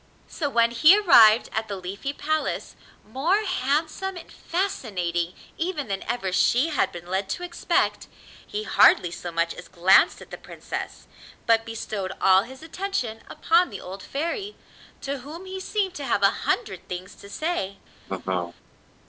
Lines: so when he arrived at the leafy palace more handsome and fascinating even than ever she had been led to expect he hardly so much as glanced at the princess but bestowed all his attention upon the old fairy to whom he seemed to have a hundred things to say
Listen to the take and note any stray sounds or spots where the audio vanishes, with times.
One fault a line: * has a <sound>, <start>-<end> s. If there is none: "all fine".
* has a laugh, 18.1-18.6 s